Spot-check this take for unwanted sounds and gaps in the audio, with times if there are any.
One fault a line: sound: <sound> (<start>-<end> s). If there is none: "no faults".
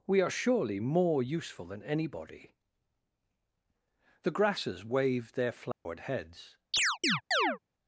sound: dropout (5.7-5.9 s)
sound: chirp (6.7-7.6 s)